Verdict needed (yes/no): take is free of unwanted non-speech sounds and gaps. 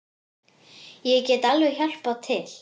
yes